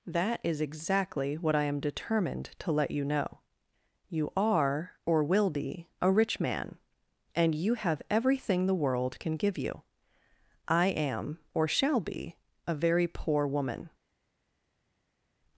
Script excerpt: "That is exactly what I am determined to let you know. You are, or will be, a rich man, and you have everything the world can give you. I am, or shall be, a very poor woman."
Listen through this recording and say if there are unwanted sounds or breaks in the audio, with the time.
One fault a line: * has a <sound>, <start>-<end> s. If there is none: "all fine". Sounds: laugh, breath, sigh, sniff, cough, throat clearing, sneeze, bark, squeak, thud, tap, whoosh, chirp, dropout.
all fine